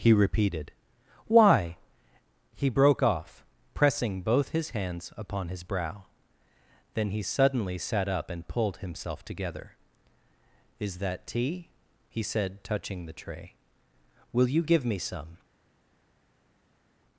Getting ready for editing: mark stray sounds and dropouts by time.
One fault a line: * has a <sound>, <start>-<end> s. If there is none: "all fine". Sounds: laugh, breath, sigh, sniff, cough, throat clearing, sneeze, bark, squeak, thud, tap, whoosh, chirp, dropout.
all fine